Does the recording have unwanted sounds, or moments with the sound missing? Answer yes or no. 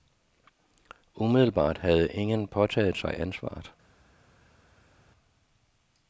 no